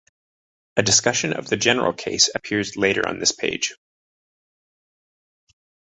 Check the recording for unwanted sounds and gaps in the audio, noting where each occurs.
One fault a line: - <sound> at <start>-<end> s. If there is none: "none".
none